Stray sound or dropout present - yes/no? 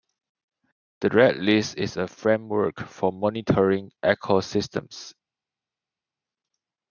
no